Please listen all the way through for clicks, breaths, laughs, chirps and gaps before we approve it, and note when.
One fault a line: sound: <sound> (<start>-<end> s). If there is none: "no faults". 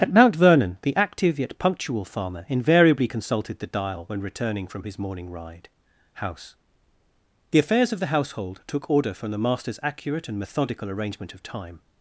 no faults